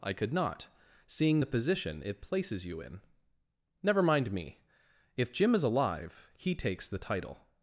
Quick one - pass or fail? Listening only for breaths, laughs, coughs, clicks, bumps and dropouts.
pass